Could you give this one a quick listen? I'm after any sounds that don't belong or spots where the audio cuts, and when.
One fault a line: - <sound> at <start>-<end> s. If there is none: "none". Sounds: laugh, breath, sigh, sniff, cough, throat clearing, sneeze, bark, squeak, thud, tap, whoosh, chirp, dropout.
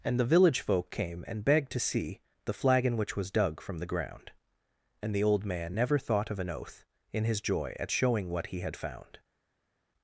none